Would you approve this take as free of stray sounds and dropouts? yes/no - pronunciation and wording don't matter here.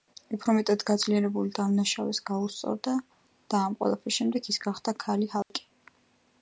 no